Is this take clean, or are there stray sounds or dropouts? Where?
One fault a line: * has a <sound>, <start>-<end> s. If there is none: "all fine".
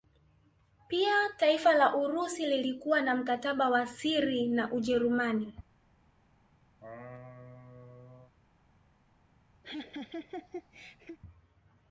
* has a laugh, 6.8-8.3 s
* has a laugh, 9.6-11.2 s